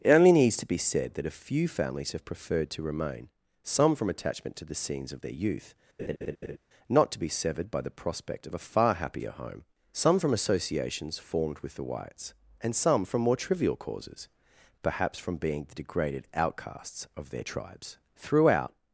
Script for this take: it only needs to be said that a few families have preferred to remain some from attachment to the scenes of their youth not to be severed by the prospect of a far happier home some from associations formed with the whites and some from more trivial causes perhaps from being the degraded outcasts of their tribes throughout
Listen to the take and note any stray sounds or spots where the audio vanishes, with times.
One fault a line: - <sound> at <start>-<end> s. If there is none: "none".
- laugh at 6.0-6.6 s